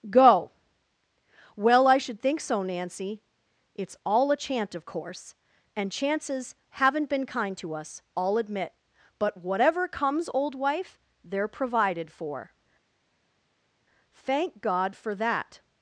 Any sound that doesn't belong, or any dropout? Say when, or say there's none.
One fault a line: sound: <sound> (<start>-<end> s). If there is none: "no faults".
no faults